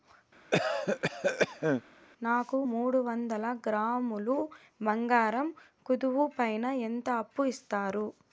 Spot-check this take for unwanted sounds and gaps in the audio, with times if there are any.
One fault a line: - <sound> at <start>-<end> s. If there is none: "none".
- cough at 0.5-1.8 s